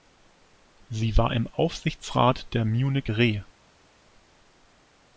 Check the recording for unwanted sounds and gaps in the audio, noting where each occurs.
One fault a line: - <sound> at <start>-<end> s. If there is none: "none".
none